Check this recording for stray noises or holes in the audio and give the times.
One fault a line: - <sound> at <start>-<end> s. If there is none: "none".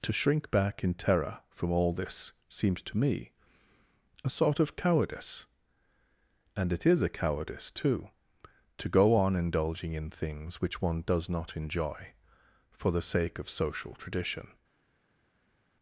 none